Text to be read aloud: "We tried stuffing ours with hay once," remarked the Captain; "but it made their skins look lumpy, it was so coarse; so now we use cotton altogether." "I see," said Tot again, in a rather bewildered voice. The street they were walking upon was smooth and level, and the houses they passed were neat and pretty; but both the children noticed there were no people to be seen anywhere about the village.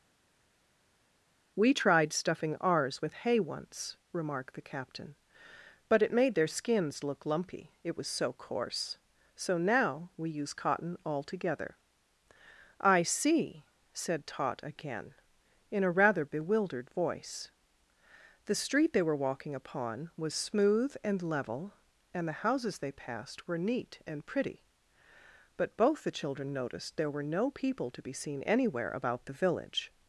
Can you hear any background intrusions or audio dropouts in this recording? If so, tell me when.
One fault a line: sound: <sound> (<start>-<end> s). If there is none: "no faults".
no faults